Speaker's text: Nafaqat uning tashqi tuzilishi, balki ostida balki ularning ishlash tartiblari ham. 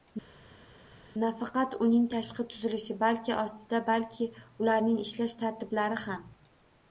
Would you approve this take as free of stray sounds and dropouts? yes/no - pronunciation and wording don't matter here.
yes